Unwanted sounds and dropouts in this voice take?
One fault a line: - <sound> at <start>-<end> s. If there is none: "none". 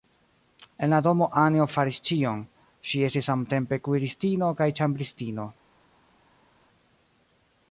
none